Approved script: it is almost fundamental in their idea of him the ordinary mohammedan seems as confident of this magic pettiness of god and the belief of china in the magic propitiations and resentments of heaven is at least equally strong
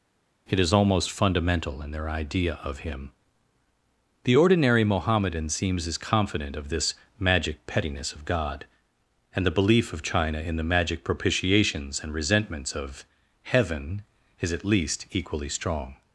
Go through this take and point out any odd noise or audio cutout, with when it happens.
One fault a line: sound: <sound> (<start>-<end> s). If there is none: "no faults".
no faults